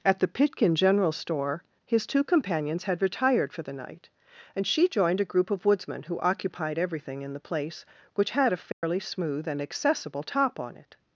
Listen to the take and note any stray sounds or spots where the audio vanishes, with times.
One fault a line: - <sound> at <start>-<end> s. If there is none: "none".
- dropout at 8.7-8.8 s